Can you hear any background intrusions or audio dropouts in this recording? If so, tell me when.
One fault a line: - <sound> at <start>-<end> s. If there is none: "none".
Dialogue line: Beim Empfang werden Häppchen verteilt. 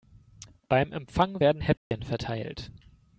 - dropout at 1.8-1.9 s